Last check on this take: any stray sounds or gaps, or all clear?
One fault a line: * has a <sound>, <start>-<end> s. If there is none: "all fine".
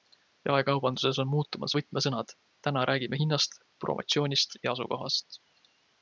all fine